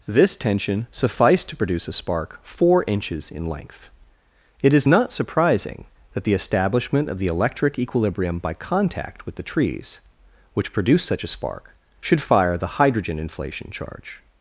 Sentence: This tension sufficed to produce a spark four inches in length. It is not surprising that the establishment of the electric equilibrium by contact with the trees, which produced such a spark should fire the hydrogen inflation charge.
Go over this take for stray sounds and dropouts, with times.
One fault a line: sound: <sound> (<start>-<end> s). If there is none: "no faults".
no faults